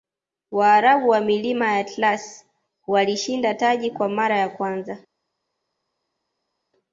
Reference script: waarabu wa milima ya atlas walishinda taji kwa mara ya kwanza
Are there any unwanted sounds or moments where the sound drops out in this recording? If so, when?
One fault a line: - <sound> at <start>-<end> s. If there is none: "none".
none